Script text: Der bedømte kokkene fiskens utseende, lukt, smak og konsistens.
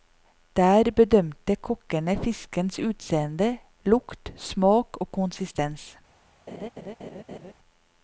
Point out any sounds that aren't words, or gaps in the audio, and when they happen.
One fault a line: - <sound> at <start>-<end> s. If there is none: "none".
- laugh at 6.5-7.5 s